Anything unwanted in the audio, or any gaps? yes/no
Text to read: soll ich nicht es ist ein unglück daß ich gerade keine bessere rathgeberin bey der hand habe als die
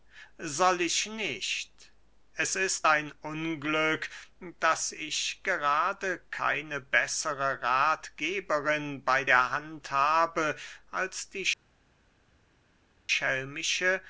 no